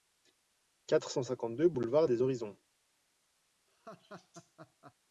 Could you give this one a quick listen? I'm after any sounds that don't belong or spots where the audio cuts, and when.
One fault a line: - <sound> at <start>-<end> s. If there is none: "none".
- laugh at 3.7-4.9 s